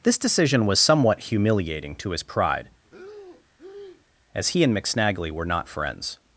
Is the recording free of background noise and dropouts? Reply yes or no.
no